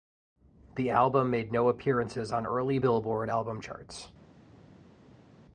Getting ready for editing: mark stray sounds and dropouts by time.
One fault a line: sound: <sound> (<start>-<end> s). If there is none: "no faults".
no faults